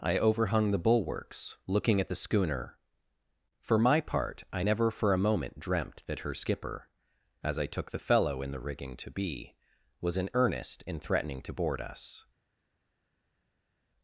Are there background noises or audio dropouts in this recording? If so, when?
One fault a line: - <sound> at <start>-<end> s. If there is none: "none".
none